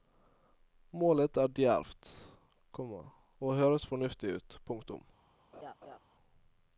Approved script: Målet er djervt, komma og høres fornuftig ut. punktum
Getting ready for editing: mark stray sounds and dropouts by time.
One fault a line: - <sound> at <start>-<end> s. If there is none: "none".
- laugh at 5.5-6.0 s